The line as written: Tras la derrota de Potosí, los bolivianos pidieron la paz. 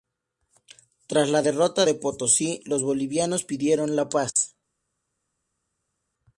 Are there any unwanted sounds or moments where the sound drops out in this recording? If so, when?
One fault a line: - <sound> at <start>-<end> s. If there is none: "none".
none